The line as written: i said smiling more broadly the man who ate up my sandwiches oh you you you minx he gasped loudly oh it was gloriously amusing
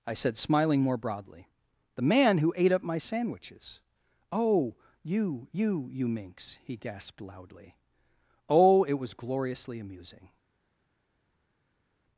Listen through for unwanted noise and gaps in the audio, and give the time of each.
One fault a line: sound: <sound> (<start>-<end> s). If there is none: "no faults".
no faults